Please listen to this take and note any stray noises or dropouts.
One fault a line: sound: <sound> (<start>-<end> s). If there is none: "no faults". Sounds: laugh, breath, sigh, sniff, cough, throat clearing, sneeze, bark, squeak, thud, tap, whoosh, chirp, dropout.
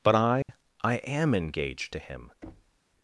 sound: dropout (0.4-0.5 s)
sound: thud (2.4-2.8 s)